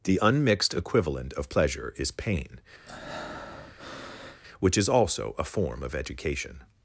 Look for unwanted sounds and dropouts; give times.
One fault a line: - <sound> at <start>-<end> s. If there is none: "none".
- breath at 2.9-4.4 s